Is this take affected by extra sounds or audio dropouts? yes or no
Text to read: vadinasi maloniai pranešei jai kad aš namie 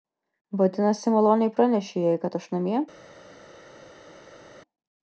no